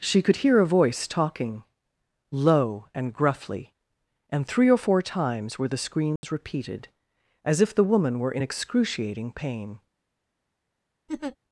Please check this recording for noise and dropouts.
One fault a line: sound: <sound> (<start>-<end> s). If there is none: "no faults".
sound: dropout (6.2-6.2 s)
sound: laugh (11.1-11.4 s)